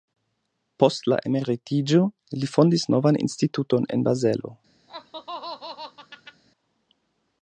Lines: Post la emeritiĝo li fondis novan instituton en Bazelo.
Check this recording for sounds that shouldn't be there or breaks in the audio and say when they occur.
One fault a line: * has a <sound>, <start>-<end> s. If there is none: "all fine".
* has a laugh, 4.9-6.4 s